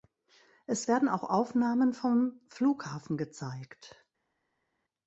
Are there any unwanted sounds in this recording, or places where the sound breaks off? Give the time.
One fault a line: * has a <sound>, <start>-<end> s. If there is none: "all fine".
all fine